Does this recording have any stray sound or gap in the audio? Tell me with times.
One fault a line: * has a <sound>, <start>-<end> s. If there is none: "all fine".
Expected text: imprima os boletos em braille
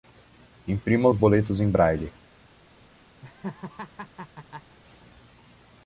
* has a laugh, 3.2-4.8 s